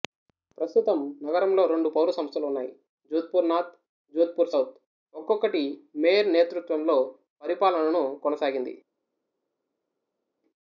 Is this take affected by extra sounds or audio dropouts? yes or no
no